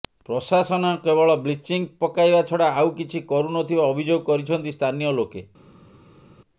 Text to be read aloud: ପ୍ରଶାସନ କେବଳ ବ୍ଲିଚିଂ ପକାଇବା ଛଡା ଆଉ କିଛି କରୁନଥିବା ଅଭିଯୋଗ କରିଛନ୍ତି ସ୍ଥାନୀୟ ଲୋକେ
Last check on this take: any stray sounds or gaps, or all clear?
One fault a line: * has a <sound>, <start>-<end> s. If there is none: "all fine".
all fine